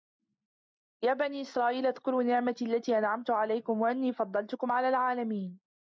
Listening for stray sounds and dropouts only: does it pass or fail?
pass